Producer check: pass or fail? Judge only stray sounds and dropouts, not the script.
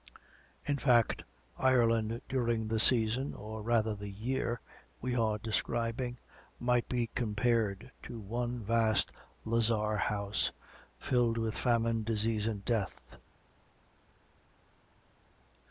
pass